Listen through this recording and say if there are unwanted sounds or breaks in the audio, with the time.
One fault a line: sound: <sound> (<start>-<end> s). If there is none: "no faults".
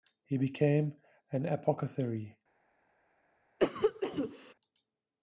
sound: cough (3.6-4.5 s)